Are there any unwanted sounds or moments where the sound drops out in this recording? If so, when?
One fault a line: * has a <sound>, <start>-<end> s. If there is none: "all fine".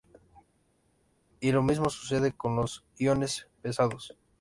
all fine